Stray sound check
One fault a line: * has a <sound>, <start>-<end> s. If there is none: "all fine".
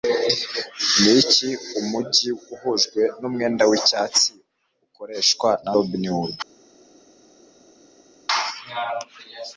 all fine